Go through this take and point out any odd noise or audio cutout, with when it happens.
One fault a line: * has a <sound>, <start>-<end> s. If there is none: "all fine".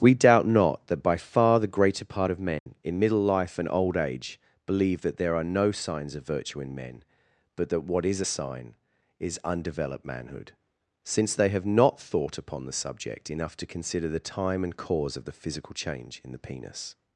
* has a dropout, 2.6-2.7 s